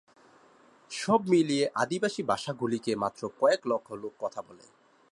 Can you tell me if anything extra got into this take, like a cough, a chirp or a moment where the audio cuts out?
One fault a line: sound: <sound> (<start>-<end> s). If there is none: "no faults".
no faults